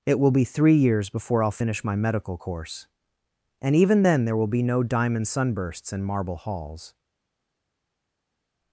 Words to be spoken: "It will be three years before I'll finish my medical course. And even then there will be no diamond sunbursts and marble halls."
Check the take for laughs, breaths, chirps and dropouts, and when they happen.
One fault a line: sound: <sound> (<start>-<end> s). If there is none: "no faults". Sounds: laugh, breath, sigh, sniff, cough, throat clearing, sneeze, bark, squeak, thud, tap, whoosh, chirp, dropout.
no faults